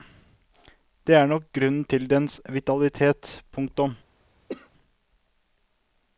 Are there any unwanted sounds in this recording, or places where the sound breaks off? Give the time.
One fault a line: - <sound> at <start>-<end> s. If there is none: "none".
- cough at 4.5-4.7 s